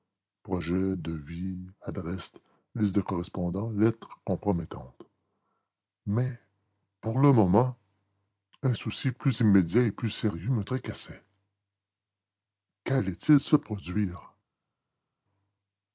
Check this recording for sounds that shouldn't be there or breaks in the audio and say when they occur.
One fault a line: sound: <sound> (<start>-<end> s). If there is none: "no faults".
no faults